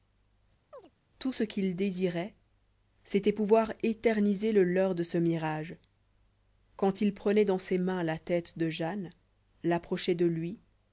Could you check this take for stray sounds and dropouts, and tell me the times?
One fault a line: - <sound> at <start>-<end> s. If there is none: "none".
- chirp at 0.7-0.9 s